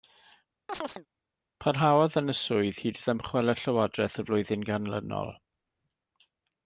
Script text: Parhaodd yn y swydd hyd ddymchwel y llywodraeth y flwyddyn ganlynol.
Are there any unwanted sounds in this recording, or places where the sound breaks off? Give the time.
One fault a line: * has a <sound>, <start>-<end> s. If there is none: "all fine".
* has a chirp, 0.7-1.1 s